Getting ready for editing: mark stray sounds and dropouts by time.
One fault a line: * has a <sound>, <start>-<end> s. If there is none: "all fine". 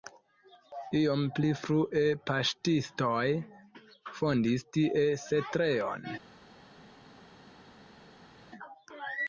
all fine